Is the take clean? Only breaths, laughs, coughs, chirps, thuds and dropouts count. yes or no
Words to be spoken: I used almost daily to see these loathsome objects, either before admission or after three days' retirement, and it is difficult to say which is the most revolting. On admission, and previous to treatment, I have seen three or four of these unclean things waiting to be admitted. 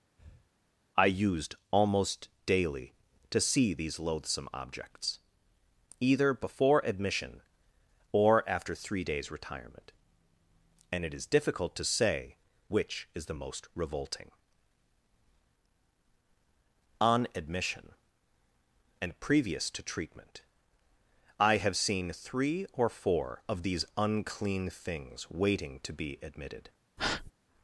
no